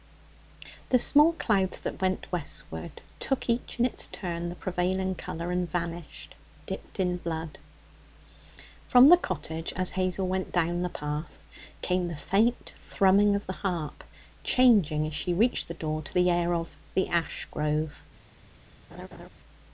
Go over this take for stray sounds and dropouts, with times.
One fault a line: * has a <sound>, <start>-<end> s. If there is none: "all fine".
* has a laugh, 18.9-19.3 s